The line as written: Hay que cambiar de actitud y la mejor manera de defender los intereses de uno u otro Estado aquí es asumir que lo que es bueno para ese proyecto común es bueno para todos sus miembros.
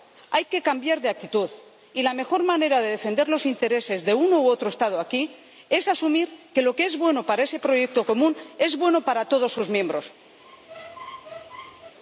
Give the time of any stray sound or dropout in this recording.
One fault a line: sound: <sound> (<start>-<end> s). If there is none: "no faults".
sound: squeak (10.4-11.9 s)